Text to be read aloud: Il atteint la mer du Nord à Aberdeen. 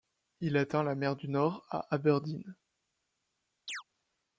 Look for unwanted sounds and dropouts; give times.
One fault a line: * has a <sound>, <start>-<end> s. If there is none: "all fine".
* has a chirp, 3.7-3.8 s